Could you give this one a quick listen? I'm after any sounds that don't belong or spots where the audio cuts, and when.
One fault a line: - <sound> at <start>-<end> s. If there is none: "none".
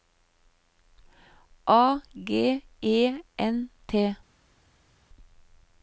none